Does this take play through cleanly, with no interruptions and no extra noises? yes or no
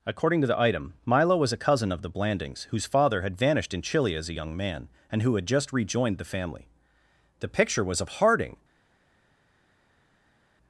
yes